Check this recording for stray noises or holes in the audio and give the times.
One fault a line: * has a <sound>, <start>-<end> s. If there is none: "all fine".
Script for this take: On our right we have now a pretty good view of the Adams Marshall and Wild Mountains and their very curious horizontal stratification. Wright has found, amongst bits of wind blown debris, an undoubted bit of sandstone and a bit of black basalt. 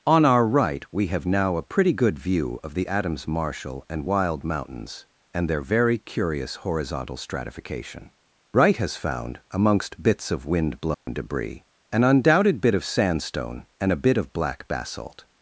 * has a dropout, 10.9-11.1 s